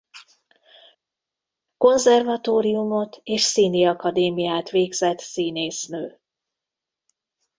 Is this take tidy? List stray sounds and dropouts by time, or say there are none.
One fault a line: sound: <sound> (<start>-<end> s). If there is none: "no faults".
no faults